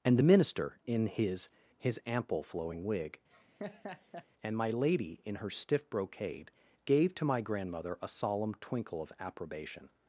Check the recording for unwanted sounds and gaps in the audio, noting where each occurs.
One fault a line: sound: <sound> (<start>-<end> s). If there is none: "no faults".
sound: laugh (3.3-4.3 s)